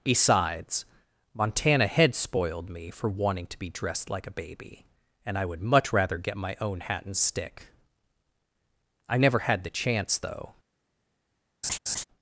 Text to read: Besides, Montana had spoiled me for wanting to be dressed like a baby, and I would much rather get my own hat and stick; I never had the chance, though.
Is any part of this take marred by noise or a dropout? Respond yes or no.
yes